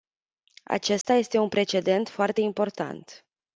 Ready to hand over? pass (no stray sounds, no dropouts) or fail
fail